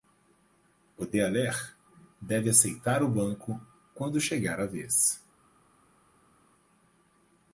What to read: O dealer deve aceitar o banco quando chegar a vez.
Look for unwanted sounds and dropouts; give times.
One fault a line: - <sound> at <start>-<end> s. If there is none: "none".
none